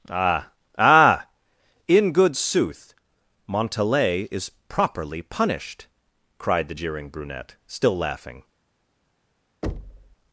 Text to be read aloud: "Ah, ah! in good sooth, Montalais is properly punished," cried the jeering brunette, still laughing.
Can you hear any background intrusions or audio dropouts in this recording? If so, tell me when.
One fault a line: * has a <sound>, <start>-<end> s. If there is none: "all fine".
* has a thud, 9.6-10.2 s